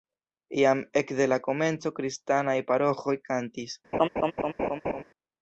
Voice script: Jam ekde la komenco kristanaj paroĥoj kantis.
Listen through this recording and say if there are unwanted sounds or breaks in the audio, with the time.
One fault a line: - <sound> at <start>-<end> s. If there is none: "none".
- laugh at 3.9-5.0 s